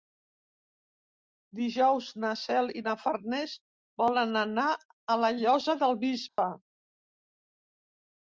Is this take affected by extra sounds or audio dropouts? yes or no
yes